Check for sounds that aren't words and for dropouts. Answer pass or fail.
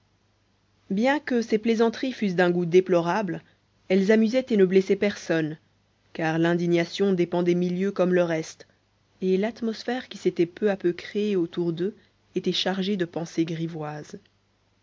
pass